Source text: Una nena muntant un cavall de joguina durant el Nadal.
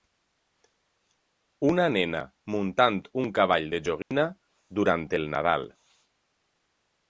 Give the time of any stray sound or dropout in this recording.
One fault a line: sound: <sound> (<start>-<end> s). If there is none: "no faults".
sound: dropout (4.0-4.1 s)